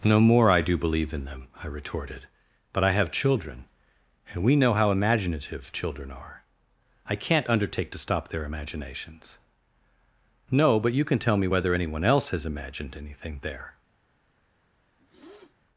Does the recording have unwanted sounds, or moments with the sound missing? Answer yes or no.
yes